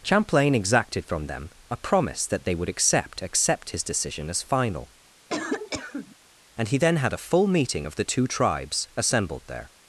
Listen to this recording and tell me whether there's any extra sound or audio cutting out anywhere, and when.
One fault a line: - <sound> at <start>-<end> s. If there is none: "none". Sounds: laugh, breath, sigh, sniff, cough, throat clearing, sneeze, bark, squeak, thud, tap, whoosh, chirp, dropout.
- cough at 5.3-6.2 s